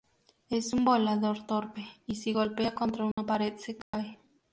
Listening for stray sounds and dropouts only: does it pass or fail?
fail